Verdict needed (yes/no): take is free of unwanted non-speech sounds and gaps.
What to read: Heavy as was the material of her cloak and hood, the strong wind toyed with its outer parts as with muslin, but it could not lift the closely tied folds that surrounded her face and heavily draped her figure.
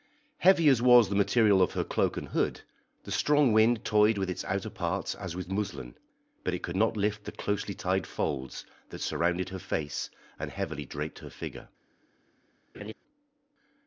no